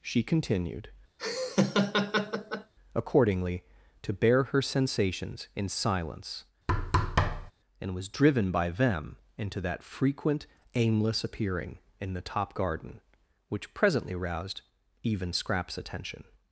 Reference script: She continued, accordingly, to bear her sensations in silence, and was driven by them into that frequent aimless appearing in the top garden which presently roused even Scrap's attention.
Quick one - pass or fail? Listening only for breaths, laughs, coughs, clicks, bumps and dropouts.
fail